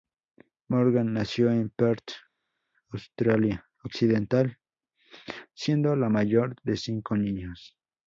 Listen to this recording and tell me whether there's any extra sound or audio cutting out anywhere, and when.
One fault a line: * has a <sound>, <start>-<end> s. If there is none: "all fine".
all fine